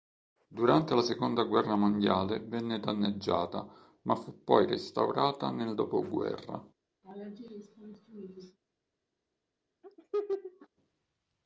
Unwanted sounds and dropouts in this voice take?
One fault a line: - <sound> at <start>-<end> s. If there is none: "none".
- laugh at 7.0-8.6 s
- laugh at 9.8-10.7 s